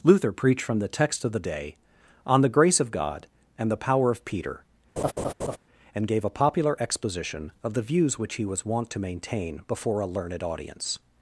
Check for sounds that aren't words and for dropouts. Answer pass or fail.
fail